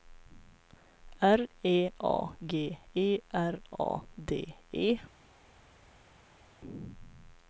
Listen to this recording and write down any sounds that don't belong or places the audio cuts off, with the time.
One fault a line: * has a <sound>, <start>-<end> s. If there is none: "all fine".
all fine